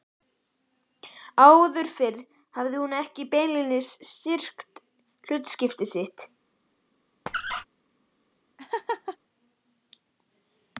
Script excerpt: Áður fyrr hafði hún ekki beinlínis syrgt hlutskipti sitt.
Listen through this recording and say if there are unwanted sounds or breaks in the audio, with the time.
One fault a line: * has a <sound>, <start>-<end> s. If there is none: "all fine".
* has a squeak, 7.3-7.6 s
* has a laugh, 8.6-9.2 s